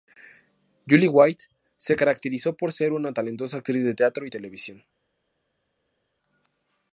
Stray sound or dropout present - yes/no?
no